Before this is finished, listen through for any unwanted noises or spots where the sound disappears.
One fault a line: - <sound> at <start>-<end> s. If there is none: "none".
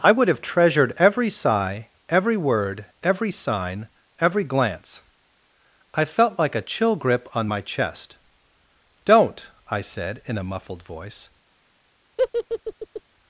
- laugh at 12.2-13.0 s